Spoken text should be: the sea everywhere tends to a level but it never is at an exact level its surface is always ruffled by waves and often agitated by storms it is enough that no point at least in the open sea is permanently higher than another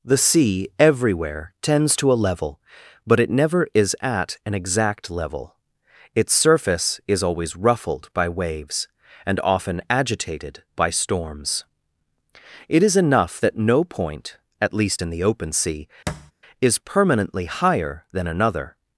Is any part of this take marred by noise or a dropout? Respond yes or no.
yes